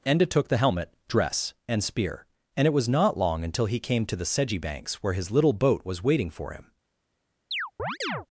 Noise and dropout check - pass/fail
fail